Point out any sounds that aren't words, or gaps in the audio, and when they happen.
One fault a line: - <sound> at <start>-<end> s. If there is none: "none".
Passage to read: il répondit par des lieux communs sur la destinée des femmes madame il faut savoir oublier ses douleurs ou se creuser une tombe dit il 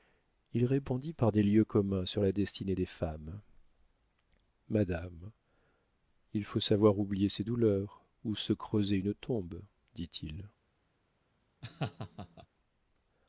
- laugh at 11.6-12.5 s